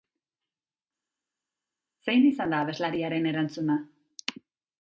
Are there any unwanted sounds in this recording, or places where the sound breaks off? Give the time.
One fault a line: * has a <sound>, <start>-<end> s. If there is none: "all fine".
all fine